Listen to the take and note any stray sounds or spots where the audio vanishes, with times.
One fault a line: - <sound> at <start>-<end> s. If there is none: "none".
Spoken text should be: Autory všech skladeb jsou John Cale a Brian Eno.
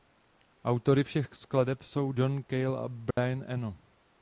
- dropout at 3.1-3.2 s